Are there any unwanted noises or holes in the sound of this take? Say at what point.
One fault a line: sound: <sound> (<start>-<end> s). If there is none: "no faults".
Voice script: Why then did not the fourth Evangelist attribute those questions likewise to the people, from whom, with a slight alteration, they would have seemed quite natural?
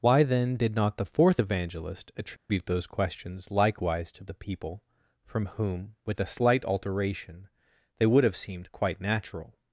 sound: dropout (2.4-2.5 s)